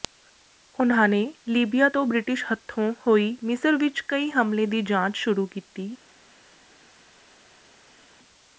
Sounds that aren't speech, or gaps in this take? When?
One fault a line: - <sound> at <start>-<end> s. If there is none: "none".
none